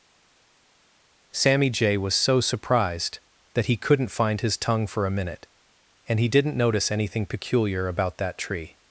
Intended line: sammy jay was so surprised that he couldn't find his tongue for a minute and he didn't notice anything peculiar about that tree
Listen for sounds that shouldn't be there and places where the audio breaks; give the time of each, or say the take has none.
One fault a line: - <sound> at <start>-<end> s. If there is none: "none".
none